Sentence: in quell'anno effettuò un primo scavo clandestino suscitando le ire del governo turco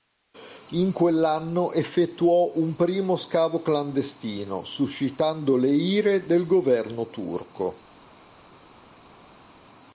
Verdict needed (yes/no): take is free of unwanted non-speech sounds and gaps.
yes